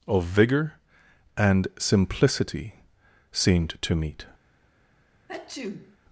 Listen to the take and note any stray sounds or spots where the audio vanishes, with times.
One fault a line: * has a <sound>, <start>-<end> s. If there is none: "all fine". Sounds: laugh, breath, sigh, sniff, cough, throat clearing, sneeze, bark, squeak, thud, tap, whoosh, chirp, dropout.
* has a sneeze, 5.3-6.0 s